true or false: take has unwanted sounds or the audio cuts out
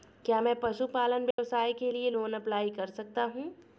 true